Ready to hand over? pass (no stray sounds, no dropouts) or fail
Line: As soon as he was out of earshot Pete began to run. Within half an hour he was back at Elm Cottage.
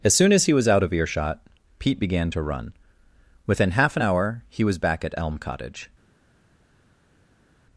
pass